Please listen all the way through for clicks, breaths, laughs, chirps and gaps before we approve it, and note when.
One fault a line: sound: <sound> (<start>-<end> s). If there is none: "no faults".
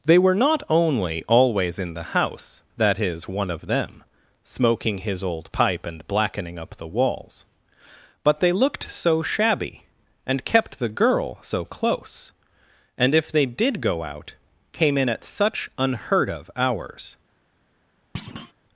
sound: thud (18.1-18.5 s)